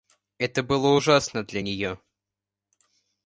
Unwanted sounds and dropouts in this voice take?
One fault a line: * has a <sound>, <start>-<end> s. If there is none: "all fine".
all fine